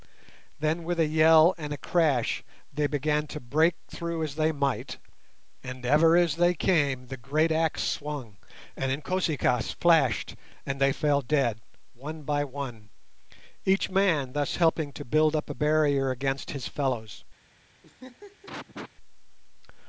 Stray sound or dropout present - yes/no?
yes